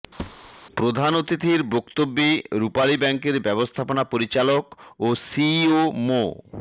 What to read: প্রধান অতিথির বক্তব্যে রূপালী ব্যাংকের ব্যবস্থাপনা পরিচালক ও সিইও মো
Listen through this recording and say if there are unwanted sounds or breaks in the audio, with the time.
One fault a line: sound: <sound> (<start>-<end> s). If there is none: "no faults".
sound: thud (0.2-0.5 s)